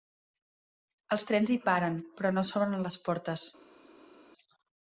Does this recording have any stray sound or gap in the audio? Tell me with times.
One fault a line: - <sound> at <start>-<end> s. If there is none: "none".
none